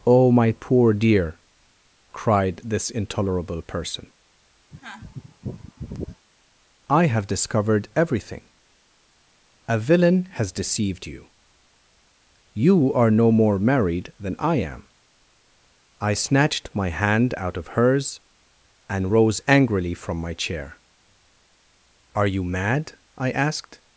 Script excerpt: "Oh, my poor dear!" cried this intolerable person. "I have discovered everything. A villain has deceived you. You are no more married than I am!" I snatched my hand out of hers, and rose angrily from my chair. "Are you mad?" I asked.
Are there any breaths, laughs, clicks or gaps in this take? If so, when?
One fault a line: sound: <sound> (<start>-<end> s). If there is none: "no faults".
sound: sneeze (4.7-6.3 s)